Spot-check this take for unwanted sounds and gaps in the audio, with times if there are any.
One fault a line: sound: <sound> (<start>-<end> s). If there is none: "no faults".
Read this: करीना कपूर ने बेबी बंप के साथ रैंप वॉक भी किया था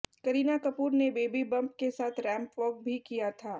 no faults